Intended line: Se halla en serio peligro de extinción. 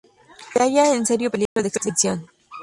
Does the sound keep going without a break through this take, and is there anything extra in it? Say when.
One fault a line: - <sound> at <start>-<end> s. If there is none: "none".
- dropout at 1.5-1.6 s